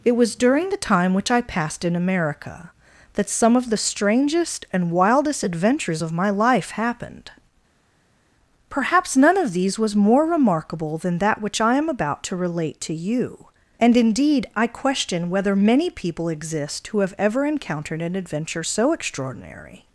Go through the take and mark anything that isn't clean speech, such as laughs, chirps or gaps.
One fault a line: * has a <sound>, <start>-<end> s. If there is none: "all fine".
all fine